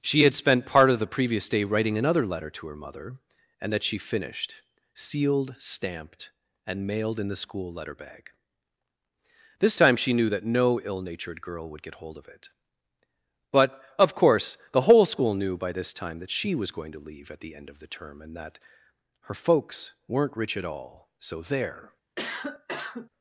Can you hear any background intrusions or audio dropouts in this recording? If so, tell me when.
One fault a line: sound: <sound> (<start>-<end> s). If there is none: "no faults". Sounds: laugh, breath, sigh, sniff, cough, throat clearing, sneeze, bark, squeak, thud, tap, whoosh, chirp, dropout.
sound: cough (22.2-23.1 s)